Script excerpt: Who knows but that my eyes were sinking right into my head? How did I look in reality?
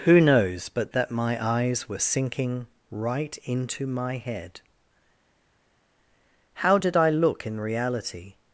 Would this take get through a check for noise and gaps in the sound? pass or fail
pass